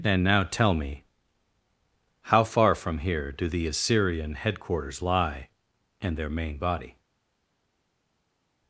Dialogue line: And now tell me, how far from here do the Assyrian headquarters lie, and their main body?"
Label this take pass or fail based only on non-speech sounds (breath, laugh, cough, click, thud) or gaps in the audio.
pass